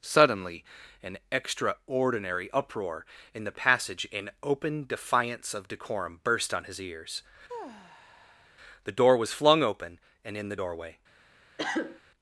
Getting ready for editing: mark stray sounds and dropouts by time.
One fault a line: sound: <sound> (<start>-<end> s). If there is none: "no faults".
sound: sigh (7.5-8.5 s)
sound: cough (11.6-12.0 s)